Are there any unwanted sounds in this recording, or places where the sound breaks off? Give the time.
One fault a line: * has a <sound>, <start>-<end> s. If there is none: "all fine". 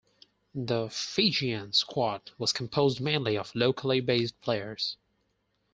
all fine